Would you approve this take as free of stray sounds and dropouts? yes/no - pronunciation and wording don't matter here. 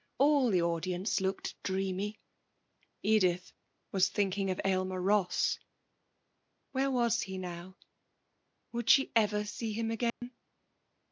no